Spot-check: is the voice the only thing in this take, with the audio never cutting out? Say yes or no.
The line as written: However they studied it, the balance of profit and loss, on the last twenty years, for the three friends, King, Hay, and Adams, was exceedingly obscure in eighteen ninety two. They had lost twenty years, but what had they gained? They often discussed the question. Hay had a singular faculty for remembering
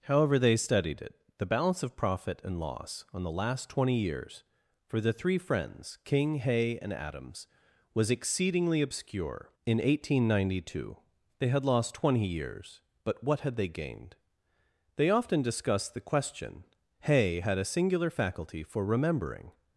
yes